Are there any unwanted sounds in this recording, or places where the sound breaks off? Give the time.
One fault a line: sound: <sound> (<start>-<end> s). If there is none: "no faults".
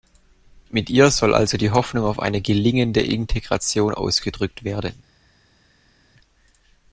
no faults